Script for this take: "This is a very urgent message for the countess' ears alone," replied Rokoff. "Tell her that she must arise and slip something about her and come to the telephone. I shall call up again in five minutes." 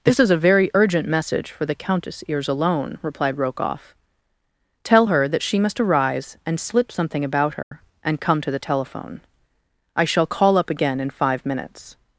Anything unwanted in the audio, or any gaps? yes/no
yes